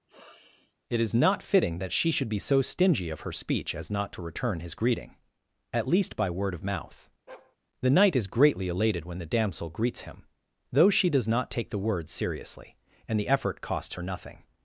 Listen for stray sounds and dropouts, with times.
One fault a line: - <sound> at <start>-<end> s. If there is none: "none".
- sniff at 0.1-0.8 s
- bark at 7.3-7.6 s